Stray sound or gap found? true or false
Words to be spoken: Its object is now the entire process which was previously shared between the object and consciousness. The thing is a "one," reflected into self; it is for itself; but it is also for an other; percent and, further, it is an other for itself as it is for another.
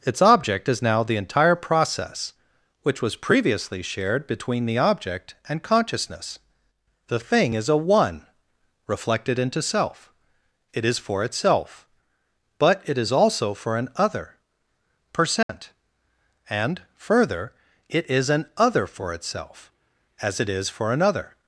true